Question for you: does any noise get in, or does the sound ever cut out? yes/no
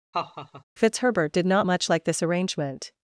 yes